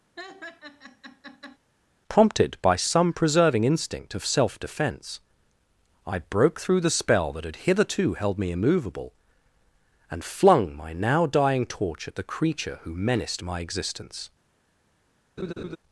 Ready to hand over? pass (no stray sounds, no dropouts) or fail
fail